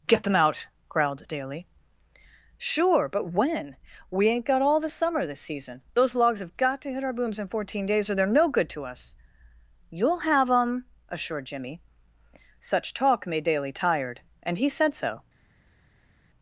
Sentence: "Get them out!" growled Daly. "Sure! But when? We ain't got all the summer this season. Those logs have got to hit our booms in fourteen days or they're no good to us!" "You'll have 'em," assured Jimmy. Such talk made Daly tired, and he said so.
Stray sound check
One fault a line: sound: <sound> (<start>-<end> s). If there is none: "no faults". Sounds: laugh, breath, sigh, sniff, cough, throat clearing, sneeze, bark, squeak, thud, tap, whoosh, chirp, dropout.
no faults